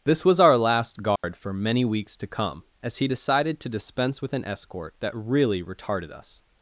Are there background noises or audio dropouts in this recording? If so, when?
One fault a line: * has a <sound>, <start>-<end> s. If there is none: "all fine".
* has a dropout, 1.2-1.2 s